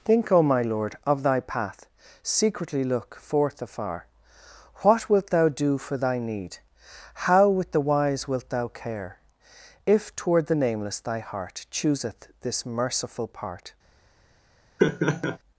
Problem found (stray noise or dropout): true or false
true